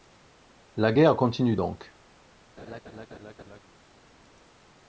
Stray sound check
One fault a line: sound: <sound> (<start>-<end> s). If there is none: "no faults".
sound: laugh (2.6-3.6 s)